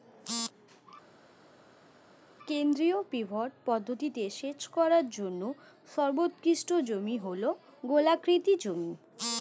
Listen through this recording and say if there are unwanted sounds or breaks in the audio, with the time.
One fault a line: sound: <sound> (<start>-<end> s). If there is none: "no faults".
no faults